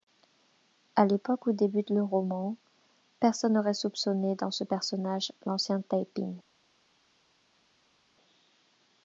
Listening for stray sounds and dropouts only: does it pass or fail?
pass